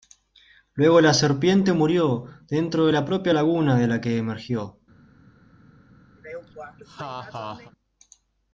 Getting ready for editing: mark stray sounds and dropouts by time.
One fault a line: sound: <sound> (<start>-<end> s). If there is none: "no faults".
sound: laugh (6.2-7.7 s)